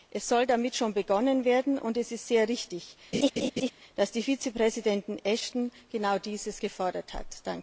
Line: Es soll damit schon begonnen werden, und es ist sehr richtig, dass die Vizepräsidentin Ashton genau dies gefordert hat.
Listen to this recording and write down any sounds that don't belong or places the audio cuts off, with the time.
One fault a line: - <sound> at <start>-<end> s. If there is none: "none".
- laugh at 3.1-3.7 s